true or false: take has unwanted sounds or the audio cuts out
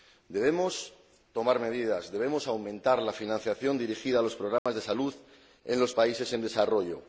true